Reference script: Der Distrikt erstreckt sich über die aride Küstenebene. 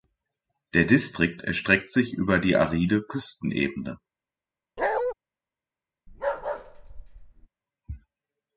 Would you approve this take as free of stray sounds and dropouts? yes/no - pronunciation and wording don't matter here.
no